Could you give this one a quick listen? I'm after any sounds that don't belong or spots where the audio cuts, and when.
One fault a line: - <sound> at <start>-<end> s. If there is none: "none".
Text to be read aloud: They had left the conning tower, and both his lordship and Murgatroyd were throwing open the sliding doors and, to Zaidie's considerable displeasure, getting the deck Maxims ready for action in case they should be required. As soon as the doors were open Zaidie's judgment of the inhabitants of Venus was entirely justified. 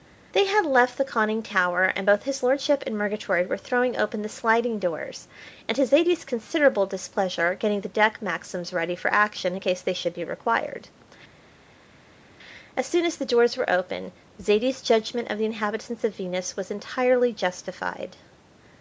none